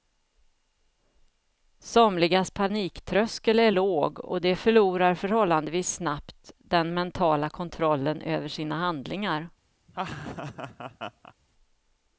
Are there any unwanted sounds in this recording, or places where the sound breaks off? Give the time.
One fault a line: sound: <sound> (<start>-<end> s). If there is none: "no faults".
sound: laugh (9.9-11.3 s)